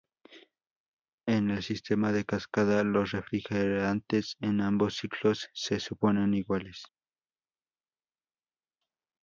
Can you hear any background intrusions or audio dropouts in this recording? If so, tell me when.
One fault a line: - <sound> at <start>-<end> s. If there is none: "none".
none